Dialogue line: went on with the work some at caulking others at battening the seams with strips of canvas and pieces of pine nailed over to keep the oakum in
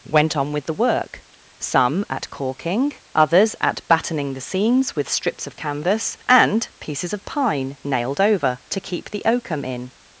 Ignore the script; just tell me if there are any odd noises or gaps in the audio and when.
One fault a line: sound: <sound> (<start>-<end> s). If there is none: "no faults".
no faults